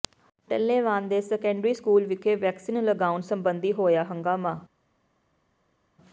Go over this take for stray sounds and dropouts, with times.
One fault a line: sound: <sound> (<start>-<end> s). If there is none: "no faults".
no faults